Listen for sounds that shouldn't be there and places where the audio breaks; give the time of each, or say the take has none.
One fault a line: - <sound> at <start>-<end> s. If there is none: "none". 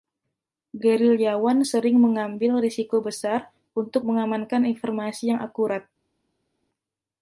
none